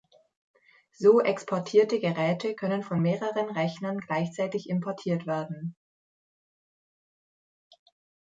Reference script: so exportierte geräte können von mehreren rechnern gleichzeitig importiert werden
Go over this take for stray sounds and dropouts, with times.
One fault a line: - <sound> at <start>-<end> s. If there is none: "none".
none